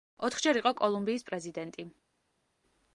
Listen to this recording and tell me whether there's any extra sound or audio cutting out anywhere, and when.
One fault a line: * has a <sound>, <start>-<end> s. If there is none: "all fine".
all fine